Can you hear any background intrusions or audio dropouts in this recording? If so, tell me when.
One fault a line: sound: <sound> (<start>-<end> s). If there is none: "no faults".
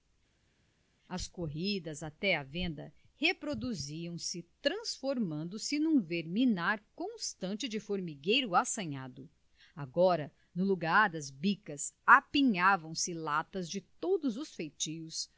no faults